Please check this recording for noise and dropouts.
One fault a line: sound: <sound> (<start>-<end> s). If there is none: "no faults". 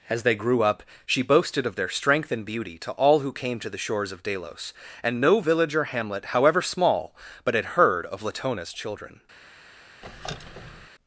sound: squeak (10.0-10.9 s)